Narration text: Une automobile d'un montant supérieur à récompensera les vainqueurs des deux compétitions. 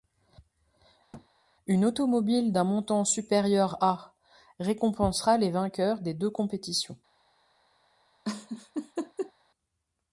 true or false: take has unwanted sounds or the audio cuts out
true